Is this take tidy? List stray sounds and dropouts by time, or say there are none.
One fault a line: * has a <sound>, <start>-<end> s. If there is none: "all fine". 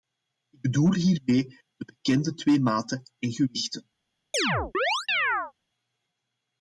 * has a chirp, 4.3-5.5 s